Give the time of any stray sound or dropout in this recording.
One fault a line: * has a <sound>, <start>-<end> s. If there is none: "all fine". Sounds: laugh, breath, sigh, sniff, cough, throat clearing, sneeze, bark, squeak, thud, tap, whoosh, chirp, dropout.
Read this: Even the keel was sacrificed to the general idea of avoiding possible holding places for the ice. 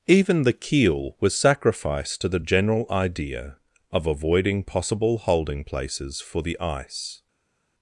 all fine